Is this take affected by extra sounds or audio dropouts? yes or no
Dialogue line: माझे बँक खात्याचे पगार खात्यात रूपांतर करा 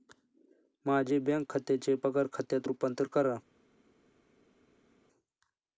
no